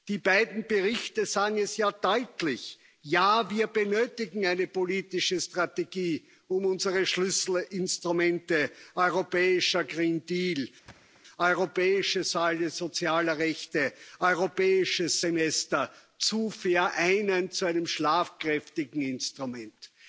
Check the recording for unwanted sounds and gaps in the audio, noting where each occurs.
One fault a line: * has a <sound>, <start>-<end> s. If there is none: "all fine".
* has a thud, 10.9-11.2 s